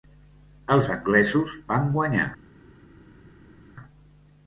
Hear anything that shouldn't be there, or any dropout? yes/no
no